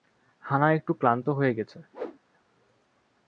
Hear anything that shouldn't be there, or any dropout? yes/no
yes